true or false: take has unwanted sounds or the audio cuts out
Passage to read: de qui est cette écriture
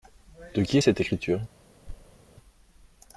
true